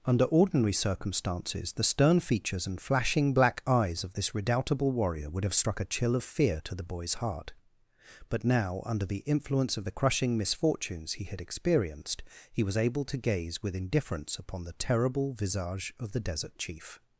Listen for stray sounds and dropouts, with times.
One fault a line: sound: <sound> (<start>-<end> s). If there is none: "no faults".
no faults